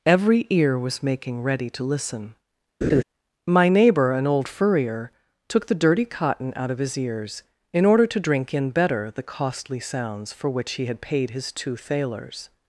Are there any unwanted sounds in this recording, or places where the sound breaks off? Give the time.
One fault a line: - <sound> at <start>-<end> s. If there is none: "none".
- laugh at 2.8-3.0 s